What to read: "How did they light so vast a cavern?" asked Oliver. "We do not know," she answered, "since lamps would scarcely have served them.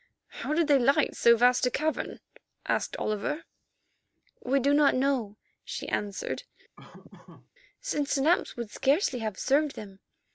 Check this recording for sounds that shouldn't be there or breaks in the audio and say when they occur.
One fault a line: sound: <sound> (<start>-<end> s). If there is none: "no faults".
sound: laugh (6.8-7.5 s)